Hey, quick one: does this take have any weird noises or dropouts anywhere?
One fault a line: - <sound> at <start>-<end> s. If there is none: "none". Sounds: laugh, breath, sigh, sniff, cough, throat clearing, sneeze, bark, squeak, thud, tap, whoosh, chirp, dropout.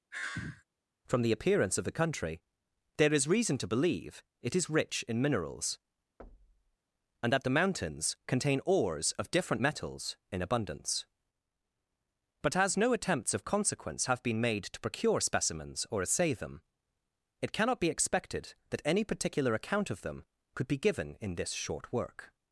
- sigh at 0.1-0.6 s
- thud at 6.2-6.8 s